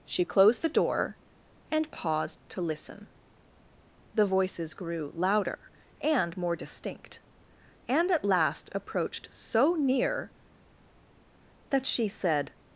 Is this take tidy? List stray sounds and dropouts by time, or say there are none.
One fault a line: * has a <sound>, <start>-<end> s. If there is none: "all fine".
all fine